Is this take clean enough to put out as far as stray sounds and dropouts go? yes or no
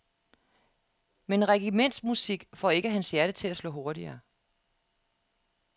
yes